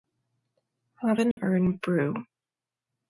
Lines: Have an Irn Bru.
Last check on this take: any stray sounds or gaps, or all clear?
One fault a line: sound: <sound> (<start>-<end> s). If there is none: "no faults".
sound: dropout (1.3-1.4 s)